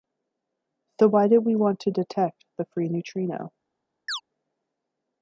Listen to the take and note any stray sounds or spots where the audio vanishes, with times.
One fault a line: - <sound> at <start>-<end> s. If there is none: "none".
- chirp at 4.1-4.2 s